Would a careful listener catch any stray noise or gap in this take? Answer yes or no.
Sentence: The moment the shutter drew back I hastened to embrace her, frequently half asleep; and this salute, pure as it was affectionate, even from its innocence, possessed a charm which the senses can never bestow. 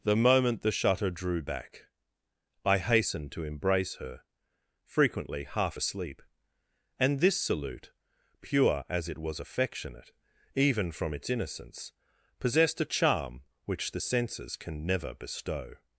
no